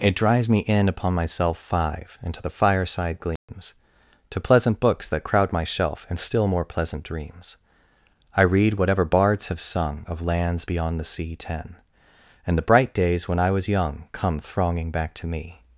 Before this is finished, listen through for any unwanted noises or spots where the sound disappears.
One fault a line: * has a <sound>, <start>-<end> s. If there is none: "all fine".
* has a dropout, 3.4-3.5 s